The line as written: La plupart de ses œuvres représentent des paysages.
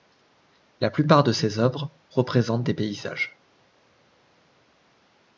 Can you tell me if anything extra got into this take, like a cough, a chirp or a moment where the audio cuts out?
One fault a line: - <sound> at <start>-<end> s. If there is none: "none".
none